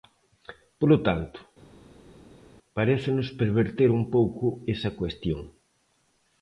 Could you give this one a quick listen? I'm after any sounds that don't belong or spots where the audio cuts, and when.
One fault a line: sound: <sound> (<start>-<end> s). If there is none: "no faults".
no faults